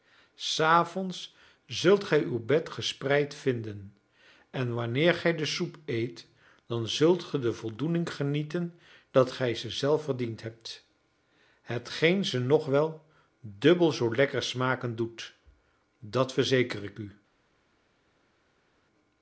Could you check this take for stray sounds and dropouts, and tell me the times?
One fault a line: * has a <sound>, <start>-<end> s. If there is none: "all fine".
all fine